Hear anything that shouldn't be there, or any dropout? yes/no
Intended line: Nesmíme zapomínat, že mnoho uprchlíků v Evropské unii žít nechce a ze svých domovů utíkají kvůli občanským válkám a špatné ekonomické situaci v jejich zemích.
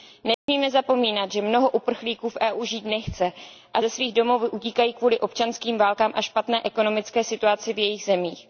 yes